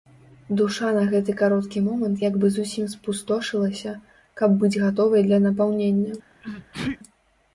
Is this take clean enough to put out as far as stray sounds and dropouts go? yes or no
no